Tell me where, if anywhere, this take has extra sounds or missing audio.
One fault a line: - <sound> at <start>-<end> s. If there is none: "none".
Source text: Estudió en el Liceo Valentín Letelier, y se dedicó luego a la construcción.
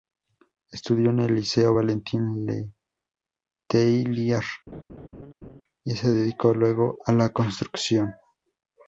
- laugh at 4.7-5.6 s